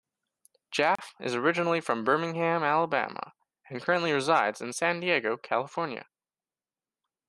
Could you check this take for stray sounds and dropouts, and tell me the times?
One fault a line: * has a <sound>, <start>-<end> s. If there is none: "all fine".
* has a dropout, 1.0-1.0 s